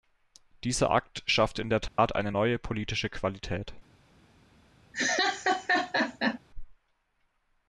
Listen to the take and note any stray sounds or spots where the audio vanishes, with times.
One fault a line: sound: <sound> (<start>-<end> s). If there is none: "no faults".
sound: dropout (1.9-2.0 s)
sound: laugh (4.9-6.4 s)